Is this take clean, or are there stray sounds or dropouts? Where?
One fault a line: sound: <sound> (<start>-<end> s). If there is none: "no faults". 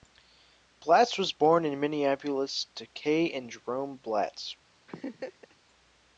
sound: laugh (4.9-5.6 s)